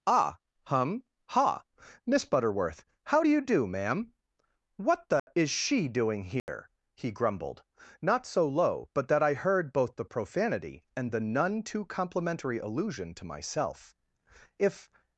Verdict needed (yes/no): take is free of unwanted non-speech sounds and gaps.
no